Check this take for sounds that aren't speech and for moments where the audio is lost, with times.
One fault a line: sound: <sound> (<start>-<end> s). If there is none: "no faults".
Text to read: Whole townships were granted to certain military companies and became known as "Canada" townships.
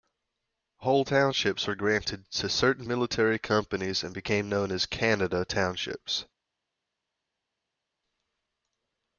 no faults